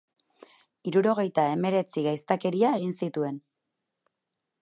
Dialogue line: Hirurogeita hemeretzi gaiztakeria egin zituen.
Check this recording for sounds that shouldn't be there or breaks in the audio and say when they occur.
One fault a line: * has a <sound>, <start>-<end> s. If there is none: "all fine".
all fine